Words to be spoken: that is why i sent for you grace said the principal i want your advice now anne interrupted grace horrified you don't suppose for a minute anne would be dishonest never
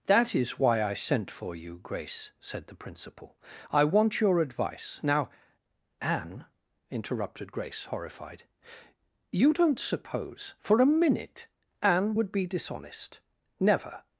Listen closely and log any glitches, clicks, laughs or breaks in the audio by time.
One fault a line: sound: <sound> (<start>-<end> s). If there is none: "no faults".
no faults